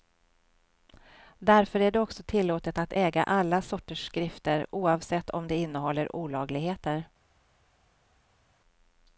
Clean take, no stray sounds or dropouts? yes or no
yes